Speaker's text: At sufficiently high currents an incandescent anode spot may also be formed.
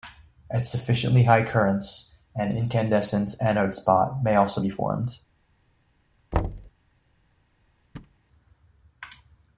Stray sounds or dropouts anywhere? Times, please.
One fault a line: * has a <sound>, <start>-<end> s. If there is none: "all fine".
* has a thud, 6.3-6.7 s
* has a thud, 7.9-8.2 s